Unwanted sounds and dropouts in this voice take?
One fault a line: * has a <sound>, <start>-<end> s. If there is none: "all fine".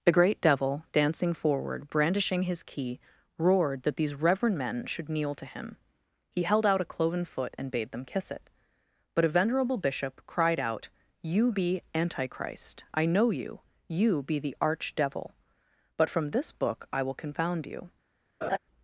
* has a laugh, 18.4-18.6 s